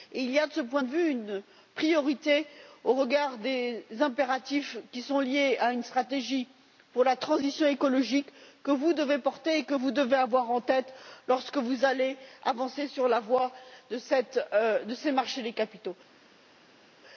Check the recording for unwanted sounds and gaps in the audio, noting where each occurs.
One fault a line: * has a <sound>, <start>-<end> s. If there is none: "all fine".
all fine